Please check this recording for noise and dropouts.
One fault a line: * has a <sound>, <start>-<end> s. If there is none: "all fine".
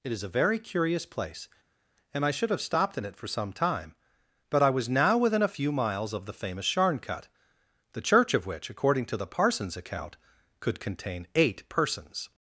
all fine